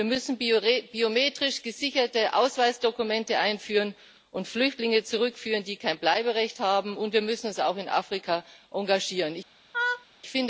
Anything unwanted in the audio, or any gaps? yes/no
yes